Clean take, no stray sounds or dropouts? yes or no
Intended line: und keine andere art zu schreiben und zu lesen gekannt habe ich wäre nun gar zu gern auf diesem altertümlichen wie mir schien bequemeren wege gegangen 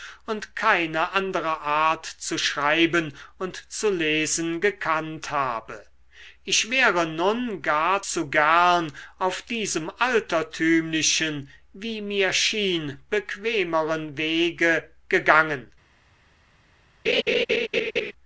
no